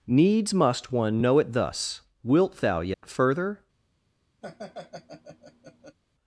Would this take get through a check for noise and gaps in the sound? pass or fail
fail